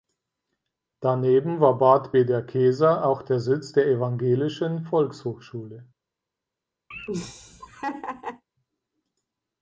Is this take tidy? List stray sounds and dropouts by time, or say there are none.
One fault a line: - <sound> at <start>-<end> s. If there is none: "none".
- laugh at 6.9-8.4 s